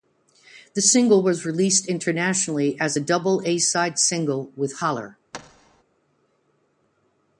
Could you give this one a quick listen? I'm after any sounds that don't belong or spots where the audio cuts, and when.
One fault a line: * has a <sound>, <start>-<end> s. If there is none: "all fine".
* has a thud, 5.3-5.8 s